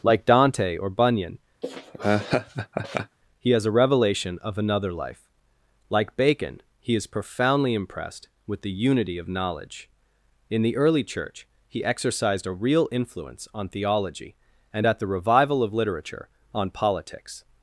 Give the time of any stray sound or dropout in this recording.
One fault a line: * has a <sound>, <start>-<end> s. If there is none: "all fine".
* has a laugh, 1.6-3.2 s